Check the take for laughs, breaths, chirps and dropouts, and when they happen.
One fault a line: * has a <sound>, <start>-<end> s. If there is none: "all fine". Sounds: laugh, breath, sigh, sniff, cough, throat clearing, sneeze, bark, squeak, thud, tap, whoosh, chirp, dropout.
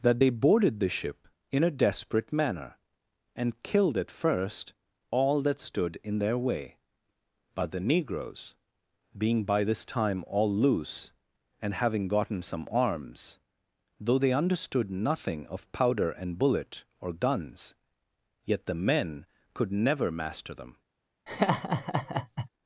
* has a laugh, 21.3-22.5 s